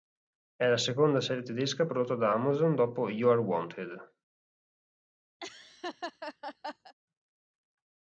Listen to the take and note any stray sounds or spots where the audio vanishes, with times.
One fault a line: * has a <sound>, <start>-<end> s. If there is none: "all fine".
* has a laugh, 5.4-6.9 s